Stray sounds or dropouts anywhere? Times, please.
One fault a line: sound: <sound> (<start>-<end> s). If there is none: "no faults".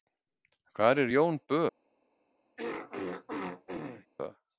sound: throat clearing (2.6-4.1 s)